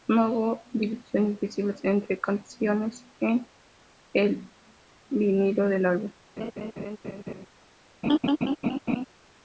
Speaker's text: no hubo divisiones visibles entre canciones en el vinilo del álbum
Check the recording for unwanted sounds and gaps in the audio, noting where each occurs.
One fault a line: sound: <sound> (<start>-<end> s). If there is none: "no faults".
sound: laugh (6.4-7.5 s)
sound: laugh (8.0-9.1 s)